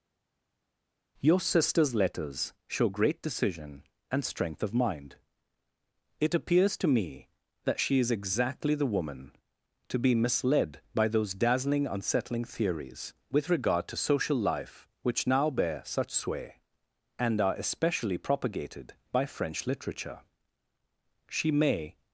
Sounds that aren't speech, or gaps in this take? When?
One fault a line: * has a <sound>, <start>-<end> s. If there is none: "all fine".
all fine